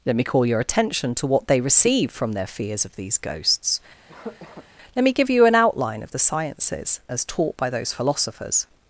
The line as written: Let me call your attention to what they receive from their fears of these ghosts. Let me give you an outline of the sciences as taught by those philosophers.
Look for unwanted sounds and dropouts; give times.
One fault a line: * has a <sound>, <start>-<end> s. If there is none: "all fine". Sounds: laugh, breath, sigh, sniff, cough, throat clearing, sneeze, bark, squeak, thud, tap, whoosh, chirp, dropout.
* has a cough, 4.1-4.7 s